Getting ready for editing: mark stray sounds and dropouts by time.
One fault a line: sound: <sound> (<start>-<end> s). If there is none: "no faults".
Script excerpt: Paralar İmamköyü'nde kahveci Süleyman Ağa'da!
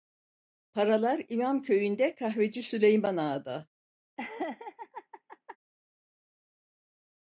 sound: laugh (4.2-5.6 s)